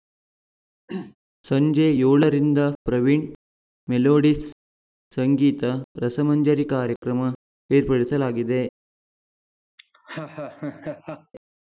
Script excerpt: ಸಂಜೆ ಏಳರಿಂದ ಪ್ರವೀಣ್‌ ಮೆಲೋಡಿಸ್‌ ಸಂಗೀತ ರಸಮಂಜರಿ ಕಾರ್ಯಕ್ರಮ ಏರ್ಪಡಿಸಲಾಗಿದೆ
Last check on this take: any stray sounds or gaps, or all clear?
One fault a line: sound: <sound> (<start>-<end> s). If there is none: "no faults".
sound: throat clearing (0.9-1.2 s)
sound: laugh (9.8-11.3 s)